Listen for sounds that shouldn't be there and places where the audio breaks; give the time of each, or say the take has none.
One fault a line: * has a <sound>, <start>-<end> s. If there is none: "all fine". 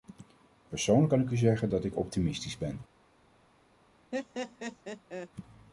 * has a laugh, 4.1-5.3 s